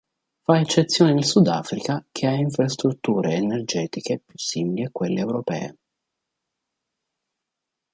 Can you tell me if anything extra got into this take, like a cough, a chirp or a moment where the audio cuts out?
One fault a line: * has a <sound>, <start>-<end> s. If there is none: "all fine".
all fine